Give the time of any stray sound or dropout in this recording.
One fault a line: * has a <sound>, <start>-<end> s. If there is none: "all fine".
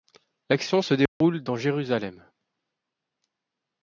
* has a dropout, 1.1-1.2 s